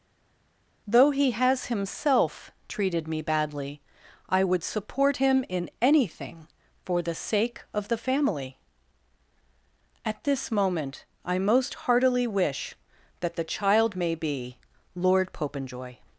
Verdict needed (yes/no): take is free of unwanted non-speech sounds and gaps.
yes